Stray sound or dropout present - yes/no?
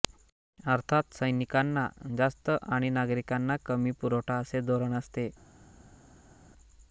no